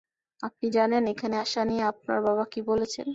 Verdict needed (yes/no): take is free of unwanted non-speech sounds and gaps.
yes